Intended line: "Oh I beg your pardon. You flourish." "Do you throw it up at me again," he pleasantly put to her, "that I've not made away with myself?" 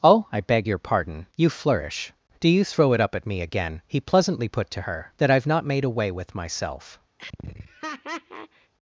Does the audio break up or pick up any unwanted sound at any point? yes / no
yes